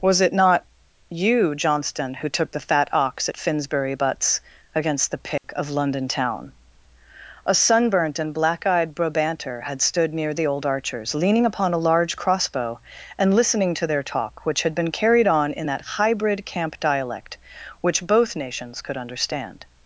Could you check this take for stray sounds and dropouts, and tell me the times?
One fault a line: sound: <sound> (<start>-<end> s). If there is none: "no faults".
sound: dropout (5.4-5.4 s)